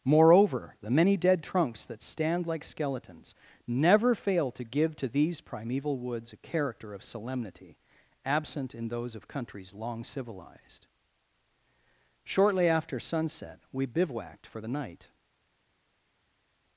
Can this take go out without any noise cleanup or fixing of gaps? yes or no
yes